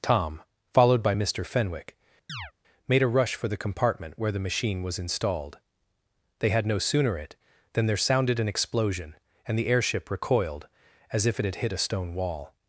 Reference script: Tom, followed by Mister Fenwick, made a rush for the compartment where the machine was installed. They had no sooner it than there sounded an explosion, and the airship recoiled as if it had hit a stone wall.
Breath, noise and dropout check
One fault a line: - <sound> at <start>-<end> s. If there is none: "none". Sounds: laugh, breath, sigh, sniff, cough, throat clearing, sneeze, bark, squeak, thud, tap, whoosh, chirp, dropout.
- chirp at 2.3-2.5 s